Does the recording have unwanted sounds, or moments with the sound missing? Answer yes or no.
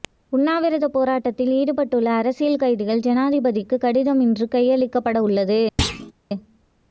yes